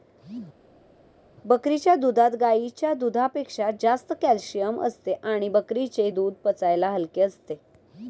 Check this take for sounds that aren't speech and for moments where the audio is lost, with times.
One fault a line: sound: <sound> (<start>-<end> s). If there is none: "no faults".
no faults